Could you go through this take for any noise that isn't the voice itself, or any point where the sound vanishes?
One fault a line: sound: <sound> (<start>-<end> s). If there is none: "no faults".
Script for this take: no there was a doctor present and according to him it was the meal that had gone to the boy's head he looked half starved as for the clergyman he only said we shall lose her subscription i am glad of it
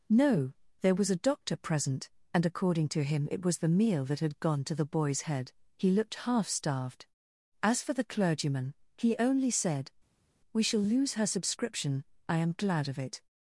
no faults